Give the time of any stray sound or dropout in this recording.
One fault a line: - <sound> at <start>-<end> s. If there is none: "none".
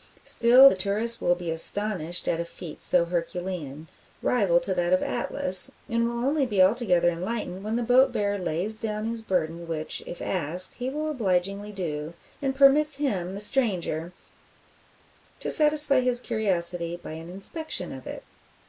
none